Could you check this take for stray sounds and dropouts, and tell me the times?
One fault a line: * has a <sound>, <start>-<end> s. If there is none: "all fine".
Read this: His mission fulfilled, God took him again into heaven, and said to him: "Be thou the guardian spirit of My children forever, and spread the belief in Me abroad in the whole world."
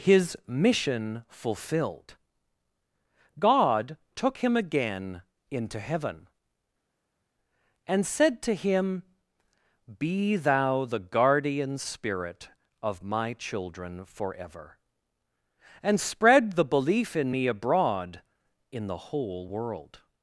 all fine